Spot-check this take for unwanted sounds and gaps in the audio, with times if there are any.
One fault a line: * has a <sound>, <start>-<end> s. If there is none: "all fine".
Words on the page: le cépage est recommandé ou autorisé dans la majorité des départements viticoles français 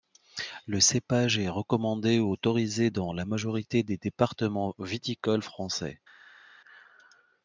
all fine